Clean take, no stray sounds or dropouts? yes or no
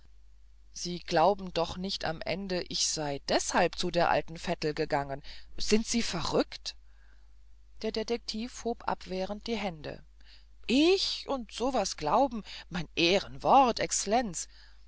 yes